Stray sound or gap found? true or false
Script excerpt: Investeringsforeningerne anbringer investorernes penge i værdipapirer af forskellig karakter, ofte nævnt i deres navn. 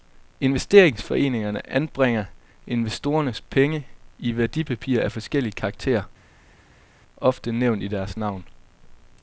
false